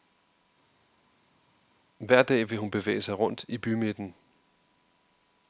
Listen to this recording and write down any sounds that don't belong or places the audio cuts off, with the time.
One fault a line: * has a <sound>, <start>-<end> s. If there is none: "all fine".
all fine